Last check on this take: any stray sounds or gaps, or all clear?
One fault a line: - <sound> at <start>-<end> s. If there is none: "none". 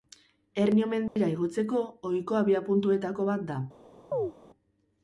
- dropout at 1.1-1.2 s
- chirp at 4.1-4.3 s